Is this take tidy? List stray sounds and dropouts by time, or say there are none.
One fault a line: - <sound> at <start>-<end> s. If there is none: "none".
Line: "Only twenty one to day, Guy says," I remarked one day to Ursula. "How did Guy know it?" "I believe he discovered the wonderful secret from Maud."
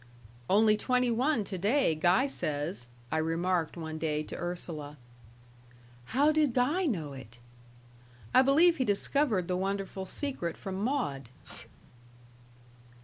- sneeze at 11.4-11.7 s